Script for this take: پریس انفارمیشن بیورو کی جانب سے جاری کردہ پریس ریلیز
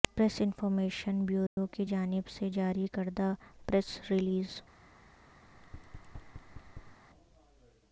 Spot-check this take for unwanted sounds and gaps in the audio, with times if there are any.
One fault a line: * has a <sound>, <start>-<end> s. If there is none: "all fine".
* has a dropout, 1.5-1.6 s
* has a thud, 5.5-7.0 s